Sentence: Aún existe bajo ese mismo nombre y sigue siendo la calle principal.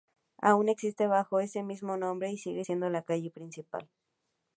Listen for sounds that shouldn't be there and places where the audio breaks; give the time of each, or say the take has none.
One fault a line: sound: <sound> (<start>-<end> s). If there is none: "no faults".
no faults